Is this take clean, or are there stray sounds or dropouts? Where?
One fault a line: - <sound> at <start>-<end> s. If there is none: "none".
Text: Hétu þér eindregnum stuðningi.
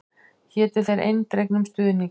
none